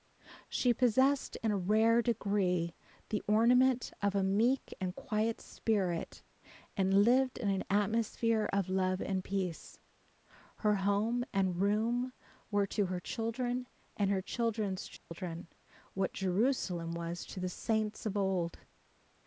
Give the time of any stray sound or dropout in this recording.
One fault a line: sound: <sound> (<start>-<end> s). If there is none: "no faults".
sound: dropout (15.0-15.1 s)